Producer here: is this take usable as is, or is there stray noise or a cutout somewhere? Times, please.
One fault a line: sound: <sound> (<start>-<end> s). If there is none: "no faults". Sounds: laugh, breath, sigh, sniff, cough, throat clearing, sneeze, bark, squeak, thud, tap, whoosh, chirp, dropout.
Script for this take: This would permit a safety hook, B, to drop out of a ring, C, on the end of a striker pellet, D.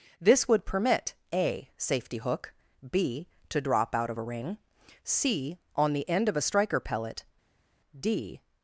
no faults